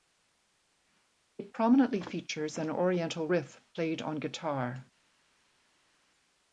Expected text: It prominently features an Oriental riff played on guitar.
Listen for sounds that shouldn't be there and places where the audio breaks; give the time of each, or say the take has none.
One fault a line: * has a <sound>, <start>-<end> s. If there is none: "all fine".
all fine